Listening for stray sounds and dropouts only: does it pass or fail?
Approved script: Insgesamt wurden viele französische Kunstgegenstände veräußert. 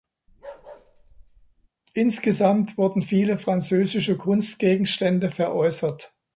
fail